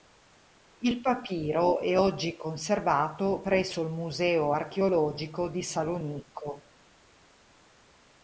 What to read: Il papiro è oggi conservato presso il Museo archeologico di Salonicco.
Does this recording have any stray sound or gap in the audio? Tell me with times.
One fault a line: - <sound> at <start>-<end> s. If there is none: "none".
none